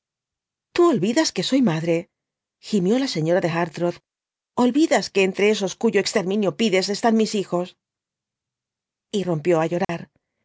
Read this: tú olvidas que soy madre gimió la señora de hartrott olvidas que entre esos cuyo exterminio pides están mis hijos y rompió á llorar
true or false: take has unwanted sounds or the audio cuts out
true